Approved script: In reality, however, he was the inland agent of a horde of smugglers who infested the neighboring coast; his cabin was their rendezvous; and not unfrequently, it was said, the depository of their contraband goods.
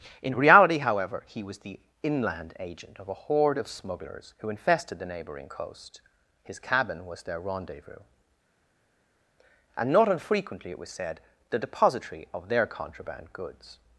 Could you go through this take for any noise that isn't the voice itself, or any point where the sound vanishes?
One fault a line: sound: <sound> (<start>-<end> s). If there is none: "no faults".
no faults